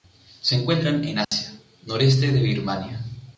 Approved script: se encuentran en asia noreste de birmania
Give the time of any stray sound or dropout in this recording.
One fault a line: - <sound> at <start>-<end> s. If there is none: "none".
- dropout at 1.2-1.3 s